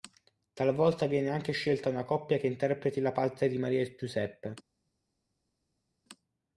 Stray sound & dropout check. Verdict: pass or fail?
pass